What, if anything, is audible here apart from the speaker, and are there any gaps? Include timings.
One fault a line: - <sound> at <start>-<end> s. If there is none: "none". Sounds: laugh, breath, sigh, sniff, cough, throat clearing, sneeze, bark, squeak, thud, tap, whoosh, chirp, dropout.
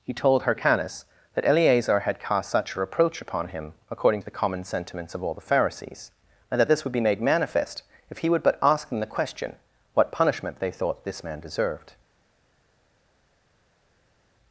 none